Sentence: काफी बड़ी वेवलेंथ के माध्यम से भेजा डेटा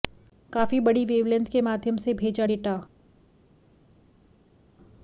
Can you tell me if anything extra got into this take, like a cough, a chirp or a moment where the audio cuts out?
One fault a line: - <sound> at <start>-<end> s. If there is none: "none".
none